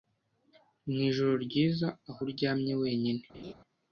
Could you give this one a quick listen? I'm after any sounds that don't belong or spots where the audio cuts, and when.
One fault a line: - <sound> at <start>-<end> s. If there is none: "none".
- laugh at 3.3-3.5 s